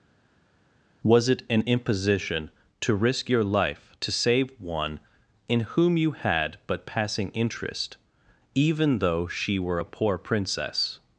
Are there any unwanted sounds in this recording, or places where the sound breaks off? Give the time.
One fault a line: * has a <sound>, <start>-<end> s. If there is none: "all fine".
all fine